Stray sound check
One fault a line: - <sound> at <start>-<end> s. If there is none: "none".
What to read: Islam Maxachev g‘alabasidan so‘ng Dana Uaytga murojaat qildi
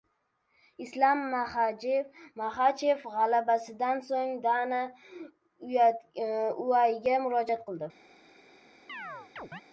- chirp at 8.9-9.6 s